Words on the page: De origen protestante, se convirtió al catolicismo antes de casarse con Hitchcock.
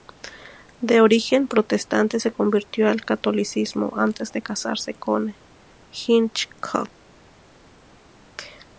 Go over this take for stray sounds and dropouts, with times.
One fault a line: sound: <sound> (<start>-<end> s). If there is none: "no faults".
no faults